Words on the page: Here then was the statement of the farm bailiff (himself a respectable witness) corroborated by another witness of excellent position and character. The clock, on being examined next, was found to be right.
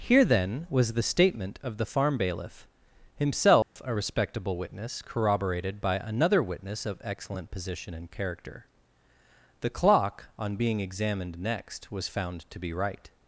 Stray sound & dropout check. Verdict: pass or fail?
fail